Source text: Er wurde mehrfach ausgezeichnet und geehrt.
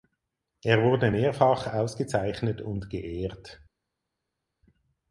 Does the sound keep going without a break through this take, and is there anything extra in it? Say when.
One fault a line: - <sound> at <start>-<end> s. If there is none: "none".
none